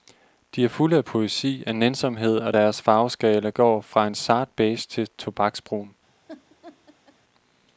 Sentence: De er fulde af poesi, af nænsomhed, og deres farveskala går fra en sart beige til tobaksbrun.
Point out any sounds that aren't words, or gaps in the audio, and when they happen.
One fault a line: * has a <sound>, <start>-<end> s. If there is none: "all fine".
* has a laugh, 6.3-7.2 s